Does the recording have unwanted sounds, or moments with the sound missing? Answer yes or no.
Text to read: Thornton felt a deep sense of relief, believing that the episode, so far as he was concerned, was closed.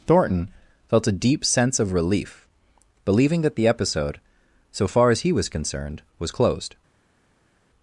no